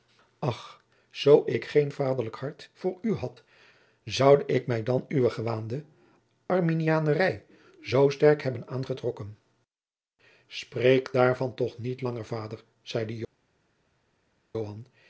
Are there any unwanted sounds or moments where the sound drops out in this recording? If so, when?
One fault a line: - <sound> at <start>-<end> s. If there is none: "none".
none